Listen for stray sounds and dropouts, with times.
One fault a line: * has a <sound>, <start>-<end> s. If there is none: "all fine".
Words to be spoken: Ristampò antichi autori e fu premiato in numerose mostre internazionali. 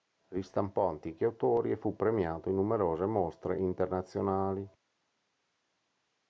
all fine